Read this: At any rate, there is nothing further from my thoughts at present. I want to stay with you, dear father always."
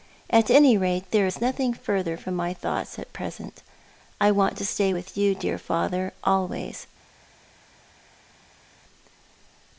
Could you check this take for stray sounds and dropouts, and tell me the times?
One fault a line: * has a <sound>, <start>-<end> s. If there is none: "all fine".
all fine